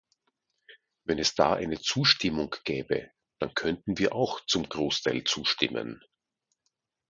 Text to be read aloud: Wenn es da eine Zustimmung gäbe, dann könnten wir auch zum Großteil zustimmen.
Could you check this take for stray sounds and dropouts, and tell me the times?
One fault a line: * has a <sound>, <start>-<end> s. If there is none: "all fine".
all fine